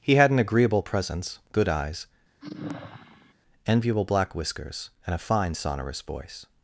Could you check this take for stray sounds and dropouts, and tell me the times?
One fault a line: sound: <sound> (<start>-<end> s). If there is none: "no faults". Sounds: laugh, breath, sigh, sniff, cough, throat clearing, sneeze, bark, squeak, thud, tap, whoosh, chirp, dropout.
sound: sigh (2.4-3.3 s)